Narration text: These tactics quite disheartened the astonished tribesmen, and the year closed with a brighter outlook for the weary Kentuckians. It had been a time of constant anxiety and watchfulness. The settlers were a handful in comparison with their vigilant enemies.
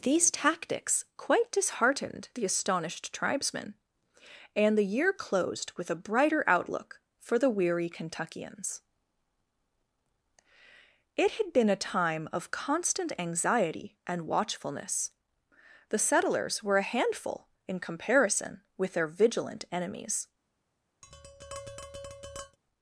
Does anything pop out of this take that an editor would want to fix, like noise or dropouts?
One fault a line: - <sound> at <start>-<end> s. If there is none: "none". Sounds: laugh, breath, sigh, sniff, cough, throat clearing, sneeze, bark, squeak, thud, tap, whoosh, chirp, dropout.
- tap at 21.0-22.6 s